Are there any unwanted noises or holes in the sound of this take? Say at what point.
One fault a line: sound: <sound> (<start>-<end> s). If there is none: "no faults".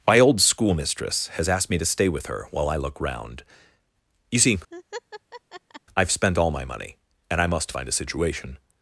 sound: laugh (4.7-5.8 s)